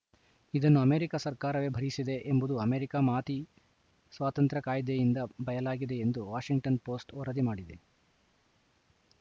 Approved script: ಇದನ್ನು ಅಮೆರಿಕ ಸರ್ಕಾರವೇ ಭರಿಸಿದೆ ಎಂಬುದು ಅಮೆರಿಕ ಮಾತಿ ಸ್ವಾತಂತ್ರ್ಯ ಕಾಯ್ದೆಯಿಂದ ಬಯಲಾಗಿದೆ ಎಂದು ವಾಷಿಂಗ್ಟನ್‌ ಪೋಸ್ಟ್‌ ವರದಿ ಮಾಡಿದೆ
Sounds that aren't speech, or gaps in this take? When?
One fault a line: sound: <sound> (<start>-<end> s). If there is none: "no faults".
no faults